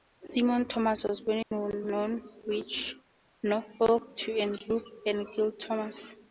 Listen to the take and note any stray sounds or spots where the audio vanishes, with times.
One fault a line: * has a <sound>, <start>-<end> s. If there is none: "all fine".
* has a dropout, 1.4-1.5 s